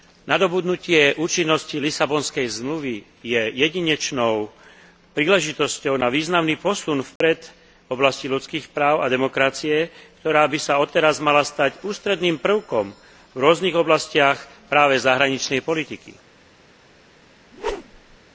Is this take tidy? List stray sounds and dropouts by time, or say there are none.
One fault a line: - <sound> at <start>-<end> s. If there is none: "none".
- dropout at 7.2-7.2 s
- whoosh at 17.5-18.2 s